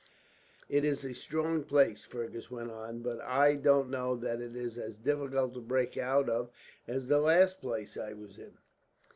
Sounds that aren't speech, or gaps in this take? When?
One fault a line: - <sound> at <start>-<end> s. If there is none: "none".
none